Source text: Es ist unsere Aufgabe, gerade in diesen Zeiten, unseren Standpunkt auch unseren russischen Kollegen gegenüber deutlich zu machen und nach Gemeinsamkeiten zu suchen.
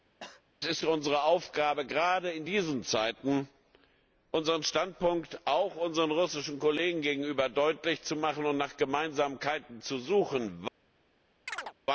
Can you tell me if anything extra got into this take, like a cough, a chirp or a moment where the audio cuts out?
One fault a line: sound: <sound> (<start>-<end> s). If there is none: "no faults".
sound: cough (0.2-0.4 s)
sound: chirp (11.5-11.7 s)